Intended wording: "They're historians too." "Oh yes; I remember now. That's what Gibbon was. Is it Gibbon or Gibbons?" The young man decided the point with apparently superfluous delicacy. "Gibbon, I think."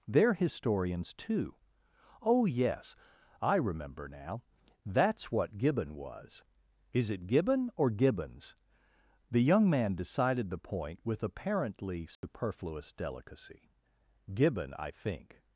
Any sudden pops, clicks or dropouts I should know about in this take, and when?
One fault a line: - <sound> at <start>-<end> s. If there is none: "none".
- dropout at 12.1-12.2 s